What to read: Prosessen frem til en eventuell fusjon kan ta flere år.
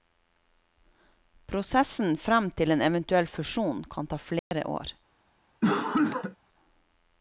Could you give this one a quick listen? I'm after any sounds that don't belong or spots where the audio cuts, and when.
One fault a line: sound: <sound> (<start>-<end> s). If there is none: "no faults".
sound: dropout (4.4-4.5 s)
sound: cough (5.6-6.4 s)